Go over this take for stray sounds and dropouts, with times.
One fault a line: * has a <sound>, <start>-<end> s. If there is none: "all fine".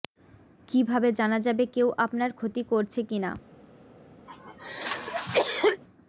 * has a cough, 4.3-5.8 s